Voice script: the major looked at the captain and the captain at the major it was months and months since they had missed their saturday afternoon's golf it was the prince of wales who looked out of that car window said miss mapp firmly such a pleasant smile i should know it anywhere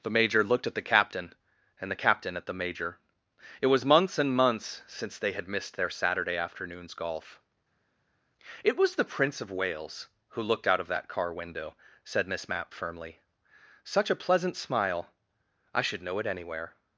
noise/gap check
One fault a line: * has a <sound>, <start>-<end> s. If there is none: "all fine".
all fine